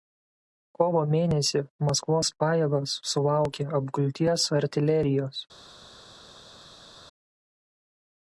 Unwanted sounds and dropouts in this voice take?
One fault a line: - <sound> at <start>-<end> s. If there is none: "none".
none